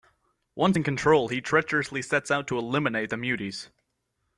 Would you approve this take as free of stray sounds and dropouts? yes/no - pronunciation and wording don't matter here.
yes